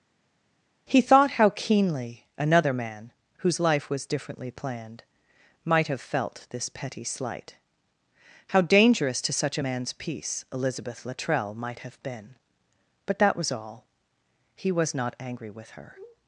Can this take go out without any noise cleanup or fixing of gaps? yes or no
yes